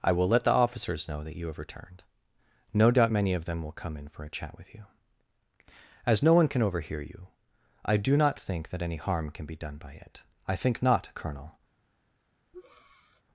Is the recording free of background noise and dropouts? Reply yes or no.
no